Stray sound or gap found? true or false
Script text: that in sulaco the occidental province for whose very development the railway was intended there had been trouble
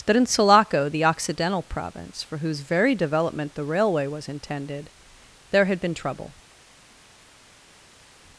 false